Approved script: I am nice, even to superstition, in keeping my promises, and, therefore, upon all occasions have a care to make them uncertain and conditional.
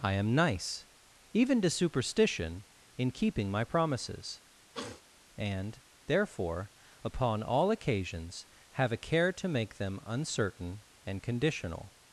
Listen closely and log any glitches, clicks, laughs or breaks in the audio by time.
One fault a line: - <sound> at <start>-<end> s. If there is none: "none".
- sniff at 4.7-5.0 s